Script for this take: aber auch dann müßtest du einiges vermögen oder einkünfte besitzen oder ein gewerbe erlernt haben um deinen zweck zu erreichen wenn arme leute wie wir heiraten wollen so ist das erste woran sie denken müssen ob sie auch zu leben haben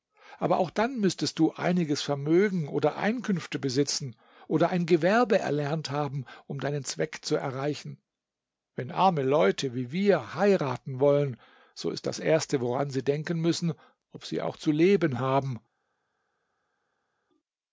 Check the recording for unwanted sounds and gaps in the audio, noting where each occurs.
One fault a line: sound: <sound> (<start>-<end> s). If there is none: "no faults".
no faults